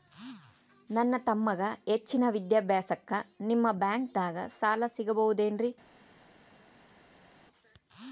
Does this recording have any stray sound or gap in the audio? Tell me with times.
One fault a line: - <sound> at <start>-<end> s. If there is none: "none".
none